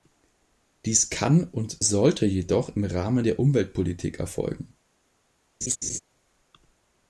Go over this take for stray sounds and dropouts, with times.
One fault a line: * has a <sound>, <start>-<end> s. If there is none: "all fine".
* has a laugh, 5.6-6.0 s